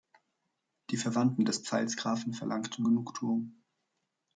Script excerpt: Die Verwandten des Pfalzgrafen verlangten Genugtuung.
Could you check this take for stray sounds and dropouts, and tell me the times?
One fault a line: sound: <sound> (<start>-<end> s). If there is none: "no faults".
no faults